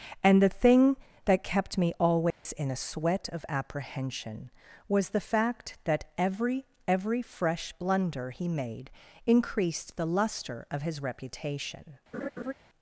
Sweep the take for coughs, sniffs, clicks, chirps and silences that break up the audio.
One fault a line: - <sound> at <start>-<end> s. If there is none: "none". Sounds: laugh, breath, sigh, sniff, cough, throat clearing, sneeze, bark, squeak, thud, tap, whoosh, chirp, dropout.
- dropout at 2.3-2.5 s
- laugh at 12.1-12.5 s